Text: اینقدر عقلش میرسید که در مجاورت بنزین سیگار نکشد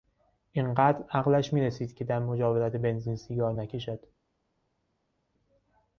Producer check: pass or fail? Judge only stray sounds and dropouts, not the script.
pass